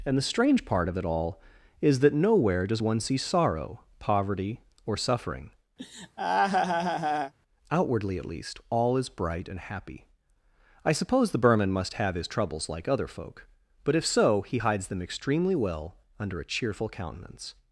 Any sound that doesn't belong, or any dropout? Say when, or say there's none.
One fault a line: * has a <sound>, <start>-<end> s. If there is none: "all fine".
* has a laugh, 5.8-7.3 s